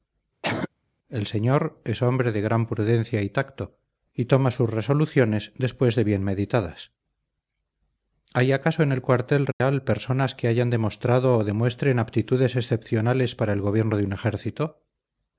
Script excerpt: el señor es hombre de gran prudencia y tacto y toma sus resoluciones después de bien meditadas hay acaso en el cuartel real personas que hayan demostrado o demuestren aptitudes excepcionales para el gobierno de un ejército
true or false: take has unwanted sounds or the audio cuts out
true